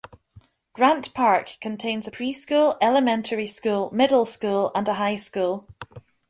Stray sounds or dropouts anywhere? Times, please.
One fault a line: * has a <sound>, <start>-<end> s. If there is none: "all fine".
all fine